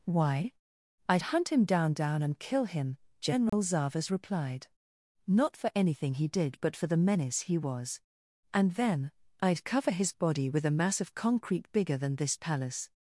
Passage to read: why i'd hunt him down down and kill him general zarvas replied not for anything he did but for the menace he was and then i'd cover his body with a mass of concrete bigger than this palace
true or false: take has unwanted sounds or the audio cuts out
true